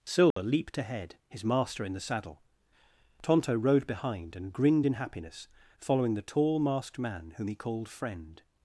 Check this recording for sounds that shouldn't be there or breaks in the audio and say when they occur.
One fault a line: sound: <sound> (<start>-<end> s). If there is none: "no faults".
sound: dropout (0.3-0.4 s)